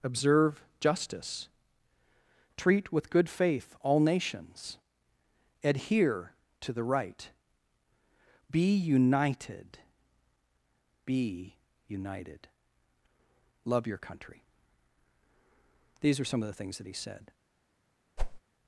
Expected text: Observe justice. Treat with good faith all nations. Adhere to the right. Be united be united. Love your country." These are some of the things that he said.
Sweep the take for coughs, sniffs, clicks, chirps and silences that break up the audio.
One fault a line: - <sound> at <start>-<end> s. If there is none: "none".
- whoosh at 18.2-18.4 s